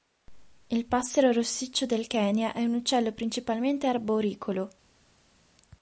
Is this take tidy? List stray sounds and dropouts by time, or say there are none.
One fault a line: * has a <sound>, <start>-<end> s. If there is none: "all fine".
all fine